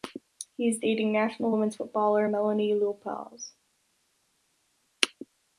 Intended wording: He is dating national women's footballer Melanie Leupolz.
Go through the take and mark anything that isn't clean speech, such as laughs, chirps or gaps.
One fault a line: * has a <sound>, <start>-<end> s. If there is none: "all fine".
all fine